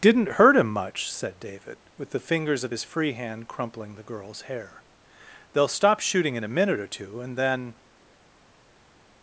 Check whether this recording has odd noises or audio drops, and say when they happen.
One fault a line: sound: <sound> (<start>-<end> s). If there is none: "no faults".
no faults